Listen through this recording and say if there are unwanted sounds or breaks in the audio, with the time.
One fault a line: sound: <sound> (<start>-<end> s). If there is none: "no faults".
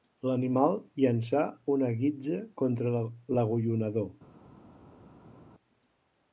no faults